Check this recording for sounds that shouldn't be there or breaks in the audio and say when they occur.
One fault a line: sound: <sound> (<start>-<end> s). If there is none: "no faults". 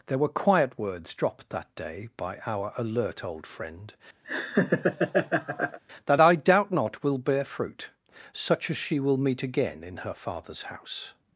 sound: laugh (4.2-5.8 s)